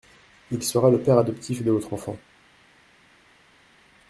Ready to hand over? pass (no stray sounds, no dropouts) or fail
pass